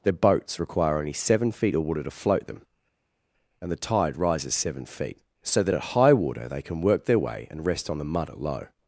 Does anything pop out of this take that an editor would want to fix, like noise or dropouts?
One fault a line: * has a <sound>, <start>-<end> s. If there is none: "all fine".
all fine